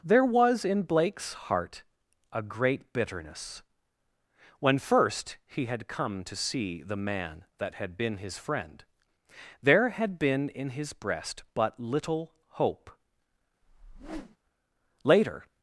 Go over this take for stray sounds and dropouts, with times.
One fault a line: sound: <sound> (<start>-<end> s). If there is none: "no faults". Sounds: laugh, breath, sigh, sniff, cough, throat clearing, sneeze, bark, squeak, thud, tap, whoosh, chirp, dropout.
sound: whoosh (13.6-14.4 s)